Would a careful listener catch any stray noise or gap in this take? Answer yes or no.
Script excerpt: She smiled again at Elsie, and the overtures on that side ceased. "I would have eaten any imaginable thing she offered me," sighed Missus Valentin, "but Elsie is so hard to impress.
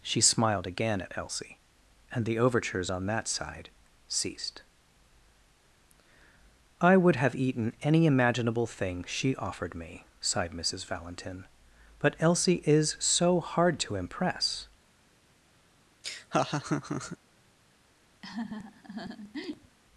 yes